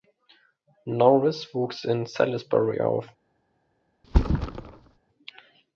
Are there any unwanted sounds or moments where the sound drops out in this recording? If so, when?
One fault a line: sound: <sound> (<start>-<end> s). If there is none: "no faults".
sound: thud (4.0-5.0 s)